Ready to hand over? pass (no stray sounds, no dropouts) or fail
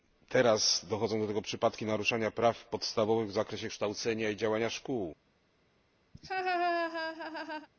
fail